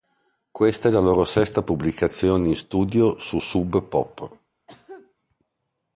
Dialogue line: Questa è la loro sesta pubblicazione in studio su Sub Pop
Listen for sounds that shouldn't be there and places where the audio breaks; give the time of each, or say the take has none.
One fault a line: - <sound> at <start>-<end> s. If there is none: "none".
- cough at 4.7-5.1 s